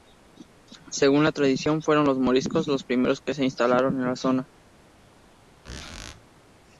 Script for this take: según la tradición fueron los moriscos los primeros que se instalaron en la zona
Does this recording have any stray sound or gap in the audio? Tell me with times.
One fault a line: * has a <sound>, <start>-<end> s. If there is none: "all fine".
* has a squeak, 5.6-6.2 s